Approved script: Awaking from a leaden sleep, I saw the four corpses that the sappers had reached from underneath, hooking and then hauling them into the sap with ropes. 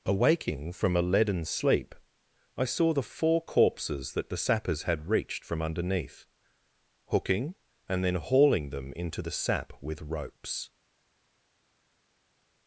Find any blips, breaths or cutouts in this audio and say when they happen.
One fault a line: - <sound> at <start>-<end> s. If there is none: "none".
none